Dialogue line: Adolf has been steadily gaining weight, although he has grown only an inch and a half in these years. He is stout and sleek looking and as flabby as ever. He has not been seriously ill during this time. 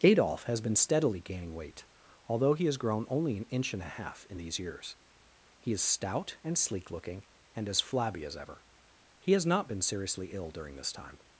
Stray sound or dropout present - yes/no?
no